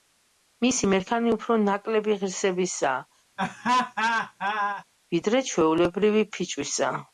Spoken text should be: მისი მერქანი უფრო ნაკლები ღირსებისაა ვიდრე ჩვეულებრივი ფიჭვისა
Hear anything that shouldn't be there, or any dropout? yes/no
yes